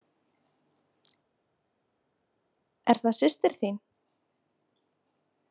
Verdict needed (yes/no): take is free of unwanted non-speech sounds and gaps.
yes